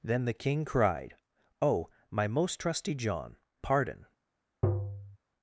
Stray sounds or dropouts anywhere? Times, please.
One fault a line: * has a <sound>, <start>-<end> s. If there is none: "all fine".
* has a tap, 4.6-5.2 s